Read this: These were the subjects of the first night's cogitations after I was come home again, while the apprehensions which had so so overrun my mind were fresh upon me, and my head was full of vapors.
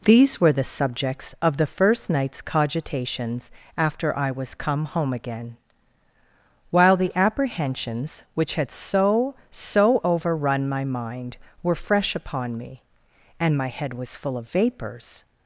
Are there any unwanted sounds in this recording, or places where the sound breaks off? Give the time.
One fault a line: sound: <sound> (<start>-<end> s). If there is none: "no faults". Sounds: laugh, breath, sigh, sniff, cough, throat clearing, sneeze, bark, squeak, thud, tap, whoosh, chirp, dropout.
no faults